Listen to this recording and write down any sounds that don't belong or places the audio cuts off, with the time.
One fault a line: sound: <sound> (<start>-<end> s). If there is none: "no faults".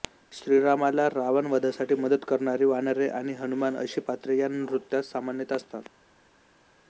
no faults